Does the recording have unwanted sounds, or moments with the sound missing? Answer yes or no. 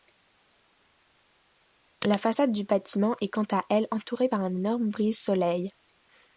no